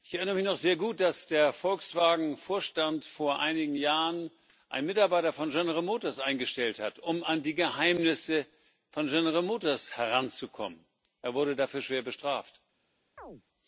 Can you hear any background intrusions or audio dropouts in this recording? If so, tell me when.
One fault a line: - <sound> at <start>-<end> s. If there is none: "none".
- chirp at 13.2-13.4 s